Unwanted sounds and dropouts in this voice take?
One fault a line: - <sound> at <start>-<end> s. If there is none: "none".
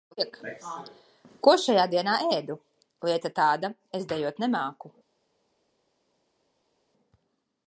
none